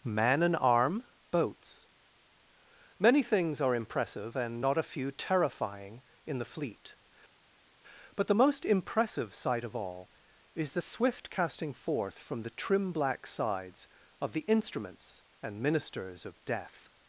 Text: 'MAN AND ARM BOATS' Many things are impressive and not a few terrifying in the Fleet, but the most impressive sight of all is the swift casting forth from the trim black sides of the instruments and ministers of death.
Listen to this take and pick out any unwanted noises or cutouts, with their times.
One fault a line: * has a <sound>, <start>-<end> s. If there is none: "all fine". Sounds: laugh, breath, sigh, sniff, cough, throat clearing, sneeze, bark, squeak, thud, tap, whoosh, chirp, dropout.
all fine